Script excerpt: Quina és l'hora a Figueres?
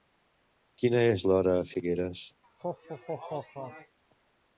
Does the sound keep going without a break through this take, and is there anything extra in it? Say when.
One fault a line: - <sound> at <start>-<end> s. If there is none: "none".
- laugh at 2.4-4.0 s